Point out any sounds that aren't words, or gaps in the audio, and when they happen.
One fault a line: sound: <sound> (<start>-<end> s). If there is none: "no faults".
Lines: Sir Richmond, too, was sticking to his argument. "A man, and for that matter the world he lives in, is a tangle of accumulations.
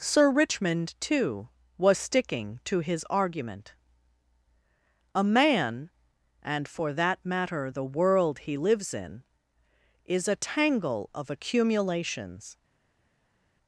no faults